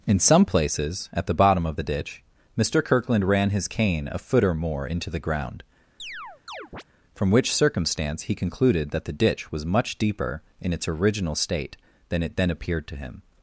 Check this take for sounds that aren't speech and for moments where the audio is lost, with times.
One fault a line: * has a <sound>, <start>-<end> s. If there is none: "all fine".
* has a chirp, 6.0-6.8 s